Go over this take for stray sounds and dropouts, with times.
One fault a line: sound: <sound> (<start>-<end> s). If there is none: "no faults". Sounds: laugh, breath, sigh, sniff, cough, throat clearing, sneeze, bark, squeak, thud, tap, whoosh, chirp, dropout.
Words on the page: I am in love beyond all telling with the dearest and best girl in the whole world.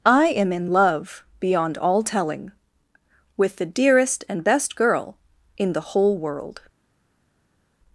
no faults